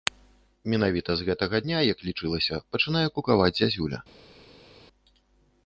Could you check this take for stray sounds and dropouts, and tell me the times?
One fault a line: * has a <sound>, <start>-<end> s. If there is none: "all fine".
all fine